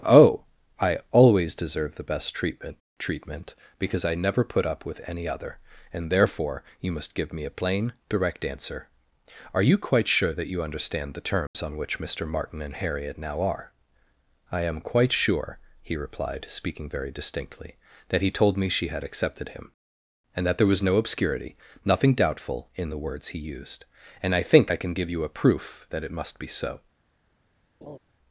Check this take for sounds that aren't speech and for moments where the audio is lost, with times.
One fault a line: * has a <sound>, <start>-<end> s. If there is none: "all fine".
* has a dropout, 11.5-11.5 s
* has a laugh, 27.8-28.0 s